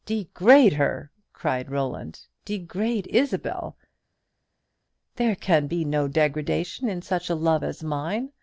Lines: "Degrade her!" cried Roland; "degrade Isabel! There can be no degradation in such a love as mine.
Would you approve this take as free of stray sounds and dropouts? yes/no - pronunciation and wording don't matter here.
yes